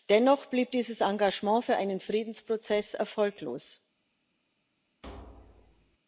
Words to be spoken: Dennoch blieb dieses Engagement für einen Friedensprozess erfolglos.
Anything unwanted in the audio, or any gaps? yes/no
yes